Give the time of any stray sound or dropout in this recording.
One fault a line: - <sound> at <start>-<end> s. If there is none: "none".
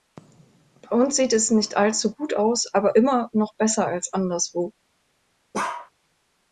- bark at 5.5-5.9 s